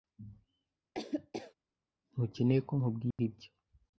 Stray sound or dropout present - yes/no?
yes